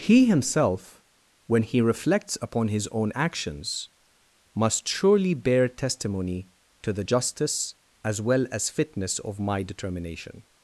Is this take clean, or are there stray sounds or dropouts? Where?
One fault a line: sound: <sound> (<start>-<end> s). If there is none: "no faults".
no faults